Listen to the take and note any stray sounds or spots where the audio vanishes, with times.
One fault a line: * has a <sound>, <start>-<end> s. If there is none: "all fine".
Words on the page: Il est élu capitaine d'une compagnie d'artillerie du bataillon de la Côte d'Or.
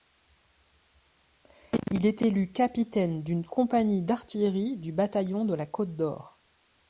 all fine